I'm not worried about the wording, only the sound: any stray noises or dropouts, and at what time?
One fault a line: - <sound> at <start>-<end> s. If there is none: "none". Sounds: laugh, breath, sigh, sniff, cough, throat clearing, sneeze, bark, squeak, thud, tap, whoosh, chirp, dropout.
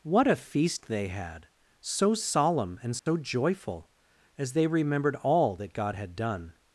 - dropout at 3.0-3.1 s